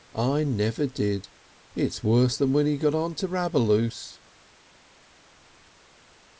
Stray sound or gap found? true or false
false